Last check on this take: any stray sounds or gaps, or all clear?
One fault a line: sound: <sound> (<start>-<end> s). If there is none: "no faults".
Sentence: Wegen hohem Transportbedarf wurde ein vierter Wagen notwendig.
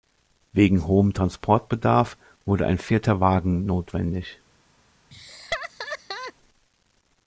sound: laugh (5.1-6.3 s)